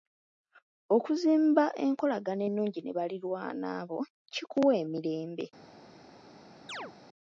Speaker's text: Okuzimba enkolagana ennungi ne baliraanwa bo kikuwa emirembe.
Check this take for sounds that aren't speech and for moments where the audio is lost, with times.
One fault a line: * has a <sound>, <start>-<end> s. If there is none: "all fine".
* has a chirp, 6.7-6.9 s